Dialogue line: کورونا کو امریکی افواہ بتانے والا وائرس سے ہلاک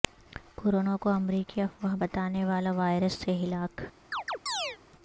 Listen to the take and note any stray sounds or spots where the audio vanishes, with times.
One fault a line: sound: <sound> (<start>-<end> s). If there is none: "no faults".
sound: chirp (4.1-4.8 s)